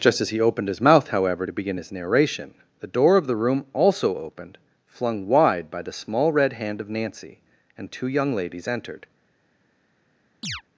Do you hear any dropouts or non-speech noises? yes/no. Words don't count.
yes